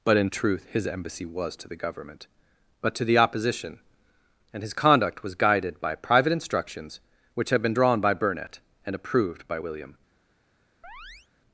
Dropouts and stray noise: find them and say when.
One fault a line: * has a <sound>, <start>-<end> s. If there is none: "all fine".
* has a chirp, 10.8-11.3 s